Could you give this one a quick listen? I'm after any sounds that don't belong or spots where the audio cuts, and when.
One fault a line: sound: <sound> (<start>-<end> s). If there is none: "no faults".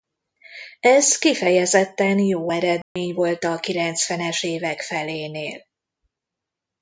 sound: dropout (2.8-3.0 s)